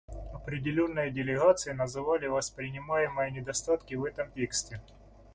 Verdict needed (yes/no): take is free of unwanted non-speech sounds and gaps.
yes